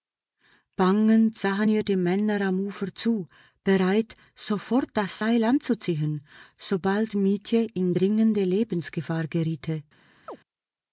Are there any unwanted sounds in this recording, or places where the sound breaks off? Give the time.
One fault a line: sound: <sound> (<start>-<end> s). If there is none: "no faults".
sound: chirp (10.3-10.4 s)